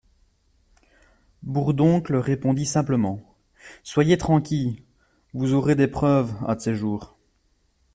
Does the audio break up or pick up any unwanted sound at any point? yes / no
no